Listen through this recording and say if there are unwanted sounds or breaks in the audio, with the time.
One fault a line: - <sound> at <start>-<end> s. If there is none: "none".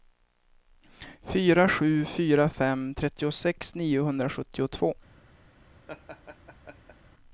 - laugh at 5.9-7.0 s